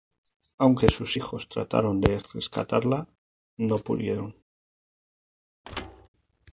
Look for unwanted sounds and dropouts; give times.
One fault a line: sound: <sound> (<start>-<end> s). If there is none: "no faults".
sound: thud (5.6-6.1 s)